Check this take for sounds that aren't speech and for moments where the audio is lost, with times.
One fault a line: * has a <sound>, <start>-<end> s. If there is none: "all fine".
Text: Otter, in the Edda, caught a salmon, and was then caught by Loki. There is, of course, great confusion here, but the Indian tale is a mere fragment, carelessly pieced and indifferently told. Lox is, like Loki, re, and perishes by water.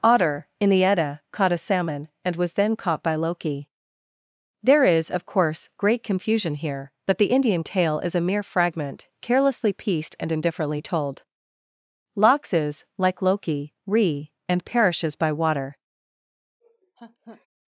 * has a laugh, 16.6-17.5 s